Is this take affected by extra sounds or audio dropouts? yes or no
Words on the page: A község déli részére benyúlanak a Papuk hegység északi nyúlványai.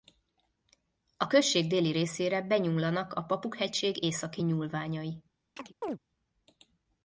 yes